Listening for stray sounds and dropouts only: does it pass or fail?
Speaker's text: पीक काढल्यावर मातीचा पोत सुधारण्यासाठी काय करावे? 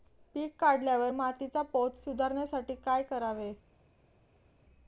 pass